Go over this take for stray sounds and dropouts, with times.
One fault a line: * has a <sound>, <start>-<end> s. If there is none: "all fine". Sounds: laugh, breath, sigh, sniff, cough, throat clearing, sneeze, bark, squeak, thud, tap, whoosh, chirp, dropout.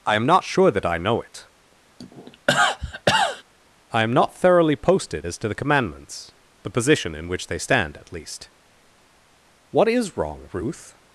* has a cough, 2.0-3.4 s